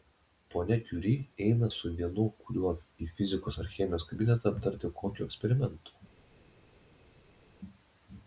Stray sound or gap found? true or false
false